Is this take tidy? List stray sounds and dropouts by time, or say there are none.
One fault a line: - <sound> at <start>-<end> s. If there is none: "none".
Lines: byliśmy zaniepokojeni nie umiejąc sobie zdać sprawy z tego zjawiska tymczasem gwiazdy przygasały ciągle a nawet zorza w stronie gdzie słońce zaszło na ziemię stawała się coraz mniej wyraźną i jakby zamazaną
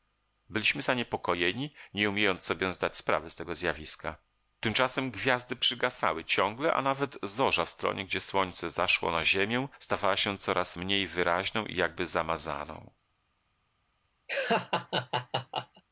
- laugh at 14.3-15.8 s